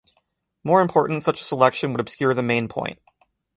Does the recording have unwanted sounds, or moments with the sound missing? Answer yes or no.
no